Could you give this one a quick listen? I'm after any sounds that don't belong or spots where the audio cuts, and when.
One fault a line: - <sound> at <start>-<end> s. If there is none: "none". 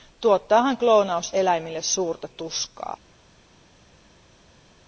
none